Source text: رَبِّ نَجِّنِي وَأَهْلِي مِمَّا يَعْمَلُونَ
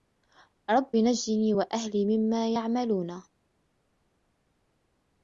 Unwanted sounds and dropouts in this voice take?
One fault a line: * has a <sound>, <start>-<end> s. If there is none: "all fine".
all fine